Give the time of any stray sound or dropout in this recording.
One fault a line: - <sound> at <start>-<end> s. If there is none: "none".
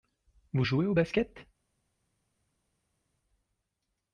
none